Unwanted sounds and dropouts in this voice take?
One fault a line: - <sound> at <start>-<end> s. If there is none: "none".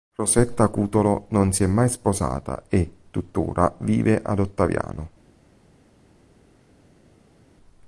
none